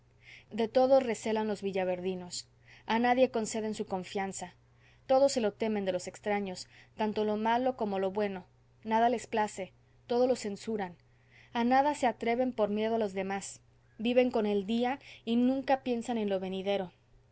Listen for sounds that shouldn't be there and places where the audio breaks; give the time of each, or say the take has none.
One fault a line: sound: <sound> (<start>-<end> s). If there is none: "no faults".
no faults